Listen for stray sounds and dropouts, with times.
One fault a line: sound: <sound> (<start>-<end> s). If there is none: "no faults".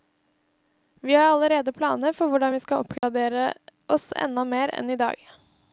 sound: dropout (3.0-3.0 s)